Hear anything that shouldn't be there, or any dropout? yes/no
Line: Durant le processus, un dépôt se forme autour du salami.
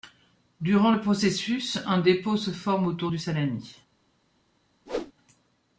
yes